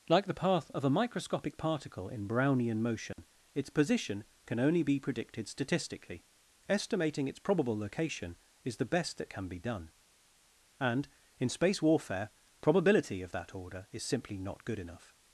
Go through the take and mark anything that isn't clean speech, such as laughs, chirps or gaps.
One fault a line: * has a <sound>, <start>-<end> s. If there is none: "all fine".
* has a dropout, 3.1-3.2 s